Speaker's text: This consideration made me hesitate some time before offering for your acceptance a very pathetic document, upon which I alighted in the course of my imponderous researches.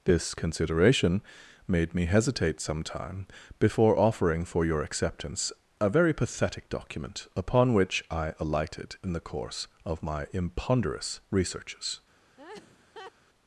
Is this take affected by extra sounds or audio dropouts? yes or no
yes